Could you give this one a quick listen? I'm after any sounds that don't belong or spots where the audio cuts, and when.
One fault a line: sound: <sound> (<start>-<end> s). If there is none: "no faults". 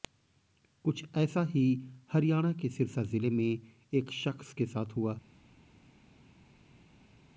no faults